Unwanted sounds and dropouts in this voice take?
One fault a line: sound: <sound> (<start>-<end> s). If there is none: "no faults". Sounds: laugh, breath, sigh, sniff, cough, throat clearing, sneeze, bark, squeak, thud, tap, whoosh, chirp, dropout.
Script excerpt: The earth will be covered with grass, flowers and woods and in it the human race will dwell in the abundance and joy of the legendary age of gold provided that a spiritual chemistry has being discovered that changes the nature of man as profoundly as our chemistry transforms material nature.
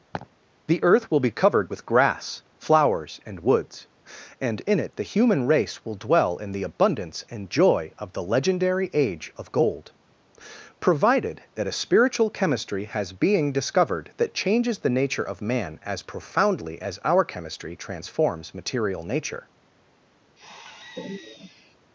sound: laugh (0.1-0.3 s)
sound: sigh (20.4-21.8 s)